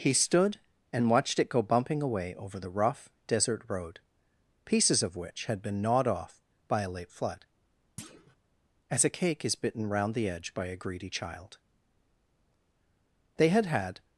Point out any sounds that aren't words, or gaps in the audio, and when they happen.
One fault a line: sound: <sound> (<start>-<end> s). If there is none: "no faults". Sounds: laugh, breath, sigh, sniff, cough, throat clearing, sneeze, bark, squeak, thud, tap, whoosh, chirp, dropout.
sound: thud (8.0-8.4 s)